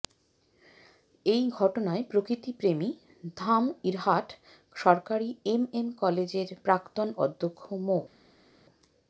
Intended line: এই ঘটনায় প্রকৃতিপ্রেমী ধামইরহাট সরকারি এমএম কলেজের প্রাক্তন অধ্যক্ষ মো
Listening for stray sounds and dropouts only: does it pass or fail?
pass